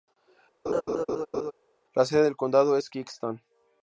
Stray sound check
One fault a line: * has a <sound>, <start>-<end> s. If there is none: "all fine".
* has a laugh, 0.7-1.5 s